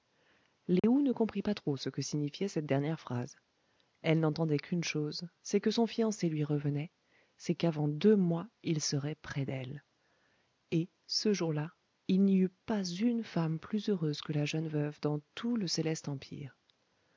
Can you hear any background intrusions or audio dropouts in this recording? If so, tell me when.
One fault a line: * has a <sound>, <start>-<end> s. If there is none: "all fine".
* has a dropout, 0.8-0.8 s